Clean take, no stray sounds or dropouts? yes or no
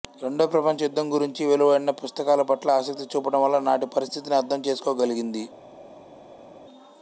yes